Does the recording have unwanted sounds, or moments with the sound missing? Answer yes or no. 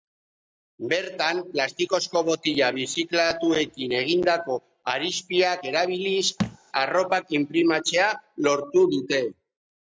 yes